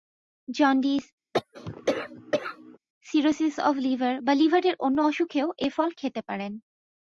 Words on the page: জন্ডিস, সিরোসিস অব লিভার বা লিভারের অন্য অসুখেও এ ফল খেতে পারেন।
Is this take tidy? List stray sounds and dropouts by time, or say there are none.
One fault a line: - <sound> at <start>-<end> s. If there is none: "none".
- cough at 1.3-2.8 s